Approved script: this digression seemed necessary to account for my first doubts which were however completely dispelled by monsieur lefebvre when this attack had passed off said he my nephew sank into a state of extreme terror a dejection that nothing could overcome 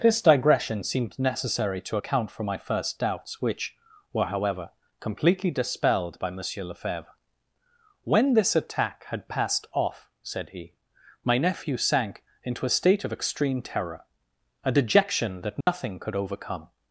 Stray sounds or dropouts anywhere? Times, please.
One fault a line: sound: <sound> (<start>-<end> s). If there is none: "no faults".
sound: dropout (15.6-15.7 s)